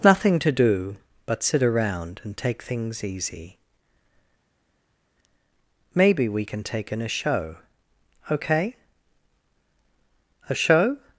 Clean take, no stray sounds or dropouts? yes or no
yes